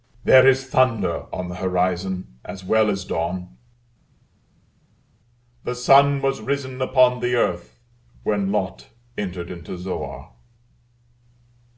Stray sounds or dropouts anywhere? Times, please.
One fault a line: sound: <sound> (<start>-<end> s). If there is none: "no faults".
no faults